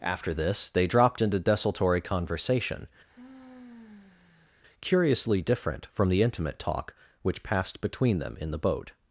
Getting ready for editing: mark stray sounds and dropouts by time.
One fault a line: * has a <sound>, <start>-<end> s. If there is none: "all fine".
* has a sigh, 3.1-4.5 s